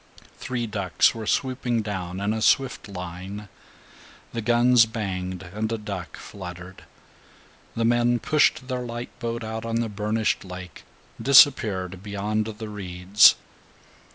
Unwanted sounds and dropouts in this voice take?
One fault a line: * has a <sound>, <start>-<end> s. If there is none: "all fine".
all fine